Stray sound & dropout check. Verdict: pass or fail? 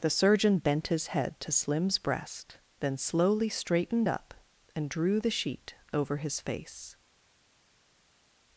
pass